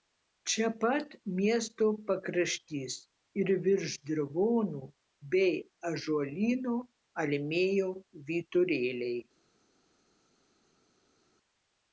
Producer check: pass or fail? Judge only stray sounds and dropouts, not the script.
pass